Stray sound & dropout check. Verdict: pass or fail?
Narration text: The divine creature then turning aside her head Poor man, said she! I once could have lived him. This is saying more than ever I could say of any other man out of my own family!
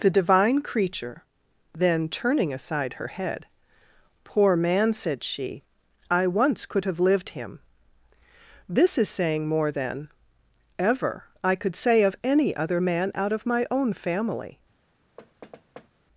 fail